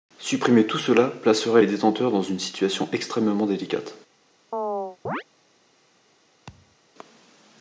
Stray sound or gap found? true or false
true